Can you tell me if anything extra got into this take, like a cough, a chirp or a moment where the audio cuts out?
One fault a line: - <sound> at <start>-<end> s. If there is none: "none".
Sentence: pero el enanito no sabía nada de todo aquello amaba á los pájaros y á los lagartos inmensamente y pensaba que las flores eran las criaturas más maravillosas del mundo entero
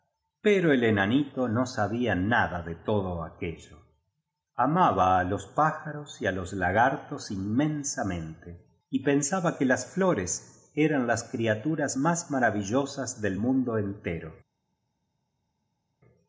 none